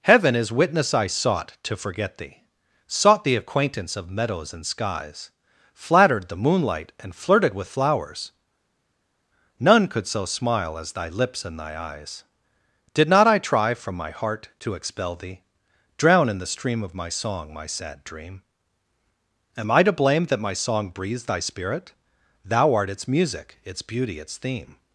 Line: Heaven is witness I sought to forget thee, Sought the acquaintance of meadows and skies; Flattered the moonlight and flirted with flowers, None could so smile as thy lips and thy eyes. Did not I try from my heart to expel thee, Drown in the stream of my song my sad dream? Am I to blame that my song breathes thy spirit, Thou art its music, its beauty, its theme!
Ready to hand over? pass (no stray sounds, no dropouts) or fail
pass